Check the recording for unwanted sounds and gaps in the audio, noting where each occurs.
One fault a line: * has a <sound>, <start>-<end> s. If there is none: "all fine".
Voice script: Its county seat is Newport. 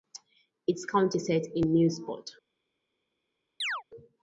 * has a chirp, 3.6-3.8 s